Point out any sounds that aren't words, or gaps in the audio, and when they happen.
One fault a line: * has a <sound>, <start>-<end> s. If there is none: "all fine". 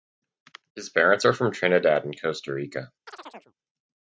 * has a chirp, 3.1-3.5 s